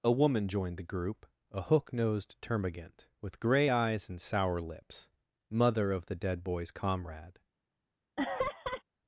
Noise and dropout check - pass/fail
fail